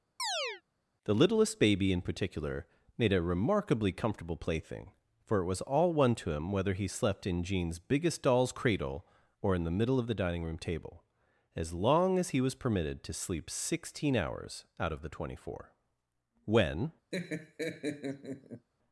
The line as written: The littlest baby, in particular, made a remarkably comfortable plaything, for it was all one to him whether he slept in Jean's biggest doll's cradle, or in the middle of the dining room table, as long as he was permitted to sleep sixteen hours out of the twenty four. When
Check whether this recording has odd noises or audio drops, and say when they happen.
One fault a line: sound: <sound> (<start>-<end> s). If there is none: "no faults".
sound: chirp (0.2-0.6 s)
sound: laugh (17.1-18.7 s)